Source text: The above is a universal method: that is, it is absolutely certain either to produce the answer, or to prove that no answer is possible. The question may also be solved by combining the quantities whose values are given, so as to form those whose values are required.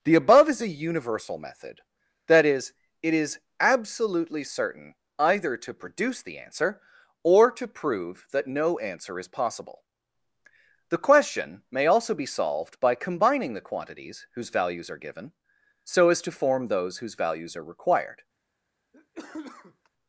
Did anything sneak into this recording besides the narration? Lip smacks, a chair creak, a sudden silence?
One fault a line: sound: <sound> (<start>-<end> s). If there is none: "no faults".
sound: cough (18.9-19.9 s)